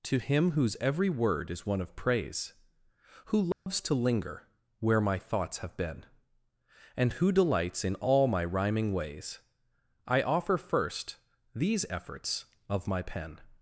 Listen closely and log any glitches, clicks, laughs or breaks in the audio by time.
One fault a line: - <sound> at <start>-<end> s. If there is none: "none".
- dropout at 3.5-3.7 s